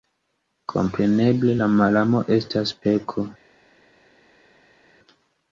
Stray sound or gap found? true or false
false